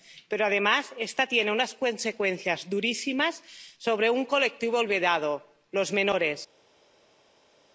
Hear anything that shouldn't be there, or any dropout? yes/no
no